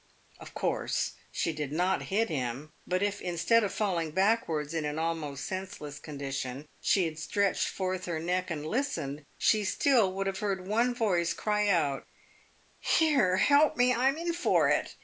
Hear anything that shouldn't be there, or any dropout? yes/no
no